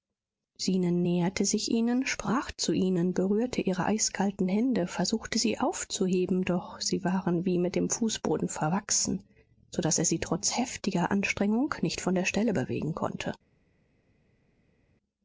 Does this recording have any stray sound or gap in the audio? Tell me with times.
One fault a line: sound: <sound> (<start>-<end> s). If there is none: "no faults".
no faults